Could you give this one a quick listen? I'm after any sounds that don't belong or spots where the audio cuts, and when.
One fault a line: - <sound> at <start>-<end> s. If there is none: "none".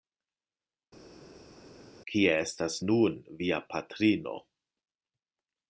none